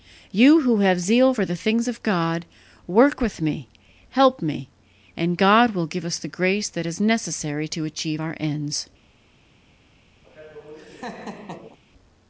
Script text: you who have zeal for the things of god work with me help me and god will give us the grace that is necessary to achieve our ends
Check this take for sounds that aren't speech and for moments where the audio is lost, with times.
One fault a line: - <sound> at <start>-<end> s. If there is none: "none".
- laugh at 10.2-11.8 s